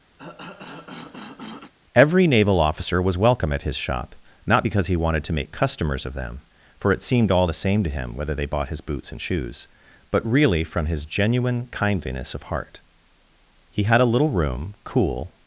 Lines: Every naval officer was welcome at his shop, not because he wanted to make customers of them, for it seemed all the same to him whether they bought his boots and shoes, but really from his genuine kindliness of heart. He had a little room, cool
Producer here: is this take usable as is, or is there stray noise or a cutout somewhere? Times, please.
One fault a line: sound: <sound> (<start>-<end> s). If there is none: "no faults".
sound: cough (0.2-1.7 s)